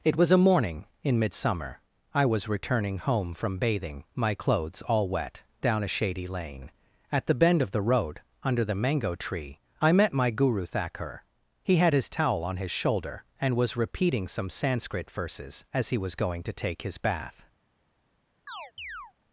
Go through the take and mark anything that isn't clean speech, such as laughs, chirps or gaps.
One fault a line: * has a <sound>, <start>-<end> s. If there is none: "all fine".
* has a chirp, 18.5-19.1 s